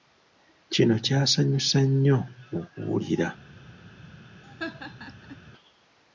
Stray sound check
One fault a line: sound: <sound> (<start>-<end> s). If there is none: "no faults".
sound: laugh (4.4-5.4 s)